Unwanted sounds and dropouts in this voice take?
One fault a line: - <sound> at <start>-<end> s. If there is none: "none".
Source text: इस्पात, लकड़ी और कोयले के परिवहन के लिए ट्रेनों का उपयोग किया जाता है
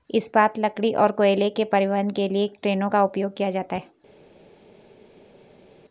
none